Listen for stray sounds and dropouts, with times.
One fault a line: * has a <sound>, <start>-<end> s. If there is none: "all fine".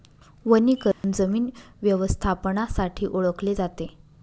* has a dropout, 0.9-1.0 s